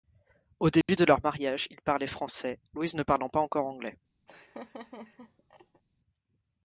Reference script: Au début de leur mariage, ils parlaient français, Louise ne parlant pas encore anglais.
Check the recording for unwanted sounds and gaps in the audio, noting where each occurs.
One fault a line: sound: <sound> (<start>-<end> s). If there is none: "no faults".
sound: dropout (0.8-0.9 s)
sound: laugh (4.3-5.8 s)